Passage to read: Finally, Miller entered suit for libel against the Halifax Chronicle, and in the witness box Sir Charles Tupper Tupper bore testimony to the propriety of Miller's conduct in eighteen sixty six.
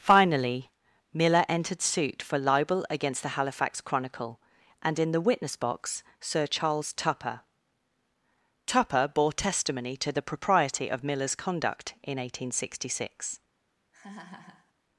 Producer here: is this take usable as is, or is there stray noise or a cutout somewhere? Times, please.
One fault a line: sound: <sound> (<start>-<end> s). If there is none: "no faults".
sound: laugh (13.9-14.7 s)